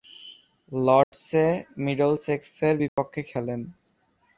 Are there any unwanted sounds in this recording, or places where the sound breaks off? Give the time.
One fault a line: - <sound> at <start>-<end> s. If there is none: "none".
- dropout at 1.0-1.1 s
- dropout at 2.9-3.0 s